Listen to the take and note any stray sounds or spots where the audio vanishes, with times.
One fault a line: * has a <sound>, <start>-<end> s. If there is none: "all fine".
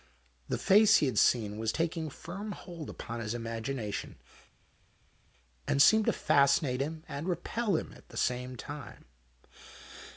all fine